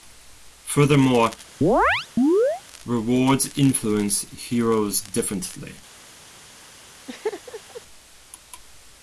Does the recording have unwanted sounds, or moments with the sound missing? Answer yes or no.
yes